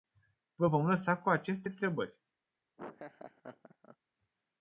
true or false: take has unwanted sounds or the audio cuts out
true